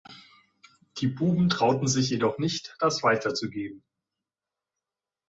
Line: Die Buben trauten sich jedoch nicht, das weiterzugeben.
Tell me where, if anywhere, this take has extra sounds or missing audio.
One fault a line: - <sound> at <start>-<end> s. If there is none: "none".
none